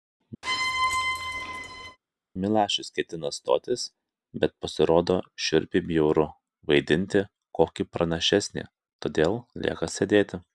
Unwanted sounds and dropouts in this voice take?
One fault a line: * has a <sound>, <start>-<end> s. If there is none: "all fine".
* has a squeak, 0.4-2.0 s